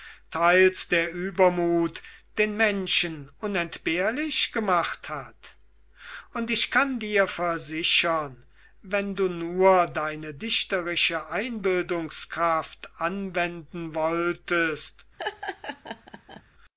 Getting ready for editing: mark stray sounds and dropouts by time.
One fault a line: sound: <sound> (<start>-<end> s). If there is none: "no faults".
sound: laugh (15.2-16.4 s)